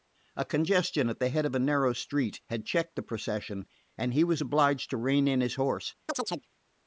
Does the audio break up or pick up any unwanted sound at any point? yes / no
yes